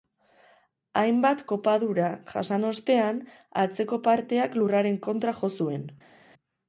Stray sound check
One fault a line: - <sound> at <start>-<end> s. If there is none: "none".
none